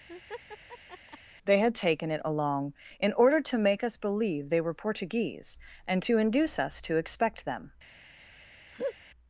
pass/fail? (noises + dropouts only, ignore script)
fail